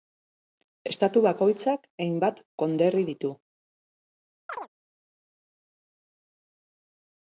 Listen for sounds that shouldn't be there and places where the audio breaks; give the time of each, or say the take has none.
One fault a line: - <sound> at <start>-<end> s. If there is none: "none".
- chirp at 4.5-4.7 s